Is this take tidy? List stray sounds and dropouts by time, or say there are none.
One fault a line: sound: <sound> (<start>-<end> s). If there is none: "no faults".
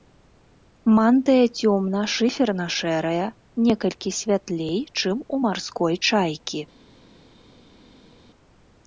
no faults